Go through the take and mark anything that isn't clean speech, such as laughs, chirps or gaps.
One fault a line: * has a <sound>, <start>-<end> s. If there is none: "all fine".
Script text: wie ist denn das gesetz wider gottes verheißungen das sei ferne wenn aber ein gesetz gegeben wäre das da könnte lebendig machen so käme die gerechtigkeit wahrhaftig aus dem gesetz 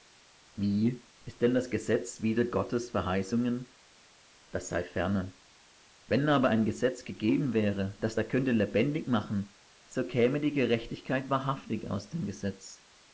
all fine